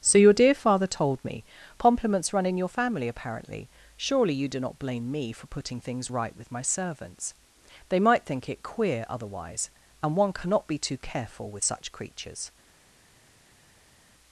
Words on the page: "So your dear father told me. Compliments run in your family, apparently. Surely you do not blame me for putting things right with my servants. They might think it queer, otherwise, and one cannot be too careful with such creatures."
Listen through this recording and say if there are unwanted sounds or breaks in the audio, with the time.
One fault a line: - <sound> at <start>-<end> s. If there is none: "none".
none